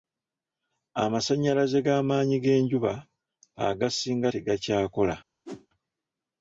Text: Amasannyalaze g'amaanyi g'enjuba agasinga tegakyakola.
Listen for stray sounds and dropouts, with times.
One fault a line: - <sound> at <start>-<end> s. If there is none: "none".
- whoosh at 5.5-5.7 s